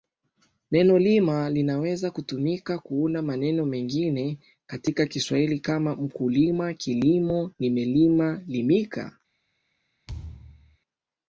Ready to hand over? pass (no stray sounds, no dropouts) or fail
fail